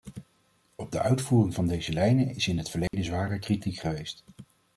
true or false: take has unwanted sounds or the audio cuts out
true